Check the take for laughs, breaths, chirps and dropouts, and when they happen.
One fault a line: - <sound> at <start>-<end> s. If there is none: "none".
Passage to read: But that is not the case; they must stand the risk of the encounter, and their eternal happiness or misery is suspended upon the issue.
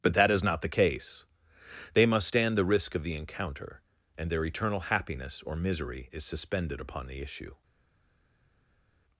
none